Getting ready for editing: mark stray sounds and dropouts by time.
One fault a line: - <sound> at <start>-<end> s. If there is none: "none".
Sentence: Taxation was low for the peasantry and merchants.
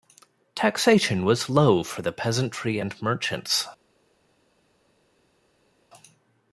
none